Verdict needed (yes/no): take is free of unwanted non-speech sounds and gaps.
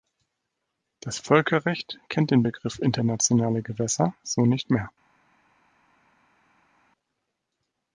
yes